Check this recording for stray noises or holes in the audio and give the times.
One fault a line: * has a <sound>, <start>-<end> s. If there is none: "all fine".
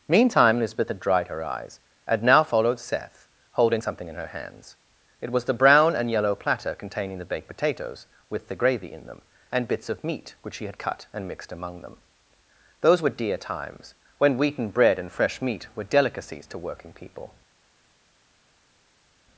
all fine